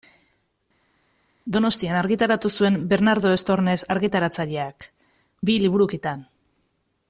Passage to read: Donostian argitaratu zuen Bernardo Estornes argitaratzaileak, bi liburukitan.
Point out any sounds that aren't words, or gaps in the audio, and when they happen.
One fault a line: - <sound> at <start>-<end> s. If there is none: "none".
none